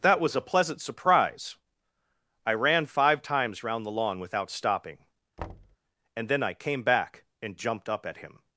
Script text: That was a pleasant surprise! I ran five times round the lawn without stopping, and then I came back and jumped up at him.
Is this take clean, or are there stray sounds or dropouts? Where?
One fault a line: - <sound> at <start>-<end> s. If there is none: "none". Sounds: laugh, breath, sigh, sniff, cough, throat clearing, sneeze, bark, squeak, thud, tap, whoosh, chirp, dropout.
- thud at 5.4-5.8 s